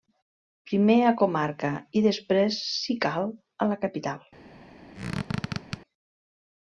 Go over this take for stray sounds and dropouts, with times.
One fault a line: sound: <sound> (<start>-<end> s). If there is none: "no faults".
sound: squeak (4.9-5.8 s)